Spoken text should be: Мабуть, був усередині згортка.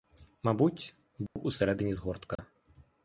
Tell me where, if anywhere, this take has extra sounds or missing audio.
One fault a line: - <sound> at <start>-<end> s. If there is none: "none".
- dropout at 1.3-1.4 s
- dropout at 2.4-2.4 s